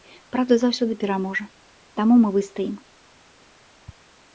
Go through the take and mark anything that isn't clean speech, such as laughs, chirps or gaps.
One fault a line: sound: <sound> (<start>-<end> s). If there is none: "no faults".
no faults